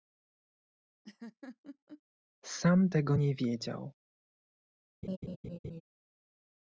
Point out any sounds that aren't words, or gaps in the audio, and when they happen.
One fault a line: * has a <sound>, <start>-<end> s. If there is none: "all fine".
* has a laugh, 1.0-2.0 s
* has a laugh, 5.0-5.8 s